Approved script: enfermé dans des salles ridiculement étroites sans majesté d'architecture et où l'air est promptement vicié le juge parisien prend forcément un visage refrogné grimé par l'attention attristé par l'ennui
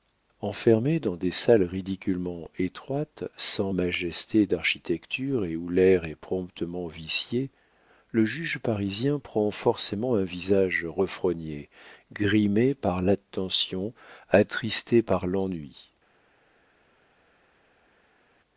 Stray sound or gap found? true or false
false